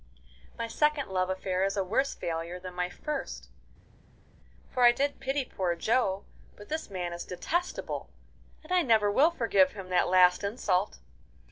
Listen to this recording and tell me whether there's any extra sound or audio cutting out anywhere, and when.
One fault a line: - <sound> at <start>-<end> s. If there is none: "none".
none